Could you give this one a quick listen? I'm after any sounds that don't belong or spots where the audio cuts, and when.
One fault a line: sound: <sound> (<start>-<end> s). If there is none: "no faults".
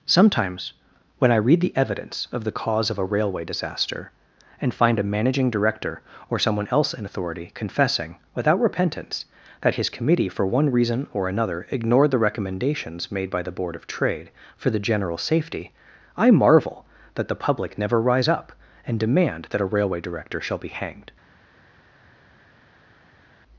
no faults